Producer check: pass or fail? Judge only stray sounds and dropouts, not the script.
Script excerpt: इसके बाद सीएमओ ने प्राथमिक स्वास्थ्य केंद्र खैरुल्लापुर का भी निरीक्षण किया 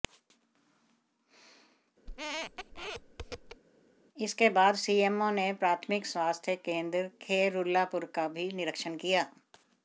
fail